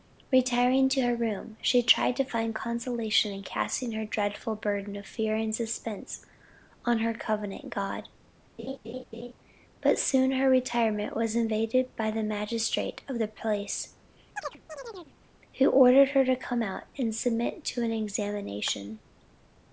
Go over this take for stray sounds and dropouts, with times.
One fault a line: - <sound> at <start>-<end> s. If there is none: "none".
- laugh at 8.6-9.3 s
- chirp at 14.4-15.2 s